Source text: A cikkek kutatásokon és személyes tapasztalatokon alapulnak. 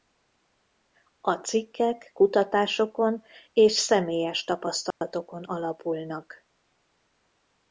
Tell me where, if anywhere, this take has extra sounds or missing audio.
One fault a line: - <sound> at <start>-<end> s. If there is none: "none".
- dropout at 4.9-5.0 s